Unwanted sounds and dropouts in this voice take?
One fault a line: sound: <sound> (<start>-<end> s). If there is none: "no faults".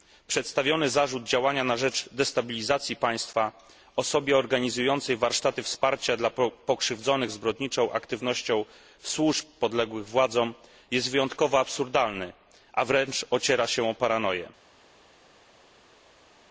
no faults